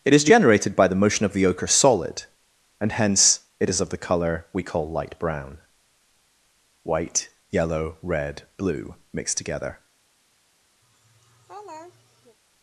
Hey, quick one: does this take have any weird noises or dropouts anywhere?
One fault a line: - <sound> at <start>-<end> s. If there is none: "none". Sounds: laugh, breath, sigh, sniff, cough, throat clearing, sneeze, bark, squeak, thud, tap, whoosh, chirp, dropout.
- laugh at 10.8-12.4 s